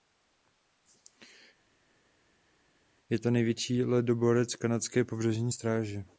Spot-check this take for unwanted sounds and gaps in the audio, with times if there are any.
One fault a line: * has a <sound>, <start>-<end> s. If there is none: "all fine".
all fine